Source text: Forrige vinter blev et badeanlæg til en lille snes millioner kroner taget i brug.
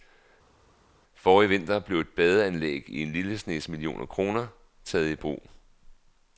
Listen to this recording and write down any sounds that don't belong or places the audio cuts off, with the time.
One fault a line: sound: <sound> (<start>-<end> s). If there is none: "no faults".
no faults